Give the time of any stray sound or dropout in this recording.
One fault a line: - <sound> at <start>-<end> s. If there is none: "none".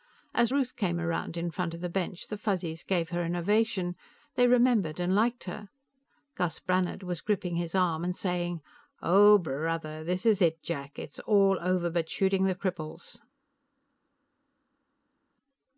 none